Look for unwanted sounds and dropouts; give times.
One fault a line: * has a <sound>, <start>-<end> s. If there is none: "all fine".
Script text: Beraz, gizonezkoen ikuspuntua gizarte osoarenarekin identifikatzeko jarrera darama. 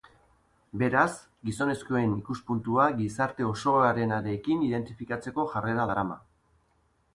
all fine